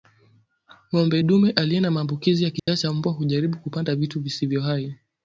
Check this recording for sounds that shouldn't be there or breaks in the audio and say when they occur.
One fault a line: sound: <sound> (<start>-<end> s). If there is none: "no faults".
sound: dropout (2.6-2.7 s)